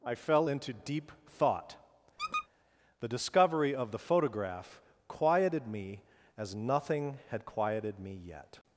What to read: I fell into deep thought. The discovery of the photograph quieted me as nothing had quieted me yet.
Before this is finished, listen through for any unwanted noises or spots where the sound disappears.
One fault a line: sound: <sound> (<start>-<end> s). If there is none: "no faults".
sound: squeak (2.2-2.5 s)